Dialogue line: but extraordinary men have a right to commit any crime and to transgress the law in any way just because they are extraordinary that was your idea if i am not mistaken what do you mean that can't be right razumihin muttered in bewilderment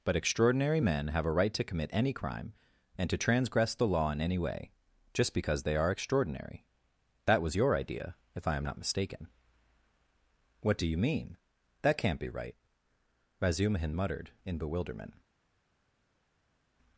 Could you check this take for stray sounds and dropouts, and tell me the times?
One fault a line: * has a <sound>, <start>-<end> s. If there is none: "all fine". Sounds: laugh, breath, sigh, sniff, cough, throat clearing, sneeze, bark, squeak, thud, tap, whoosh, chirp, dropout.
all fine